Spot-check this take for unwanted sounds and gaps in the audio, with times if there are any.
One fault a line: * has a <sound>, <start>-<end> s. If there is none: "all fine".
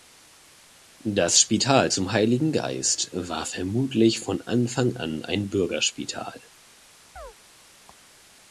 * has a chirp, 7.2-7.3 s